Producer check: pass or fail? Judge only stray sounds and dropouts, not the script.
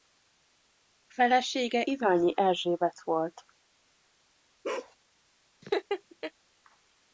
fail